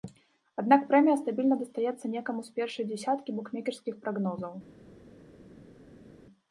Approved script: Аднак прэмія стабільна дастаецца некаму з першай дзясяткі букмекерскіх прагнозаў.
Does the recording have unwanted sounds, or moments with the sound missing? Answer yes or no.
no